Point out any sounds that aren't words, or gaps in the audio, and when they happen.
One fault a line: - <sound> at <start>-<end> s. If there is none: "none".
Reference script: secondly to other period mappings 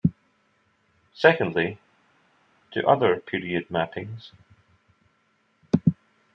none